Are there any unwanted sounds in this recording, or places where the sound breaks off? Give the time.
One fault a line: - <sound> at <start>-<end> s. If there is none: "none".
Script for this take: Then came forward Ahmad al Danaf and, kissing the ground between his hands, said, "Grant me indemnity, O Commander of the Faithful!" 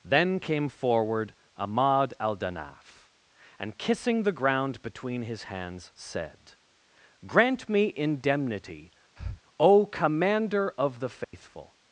- breath at 9.2-9.4 s
- dropout at 11.2-11.3 s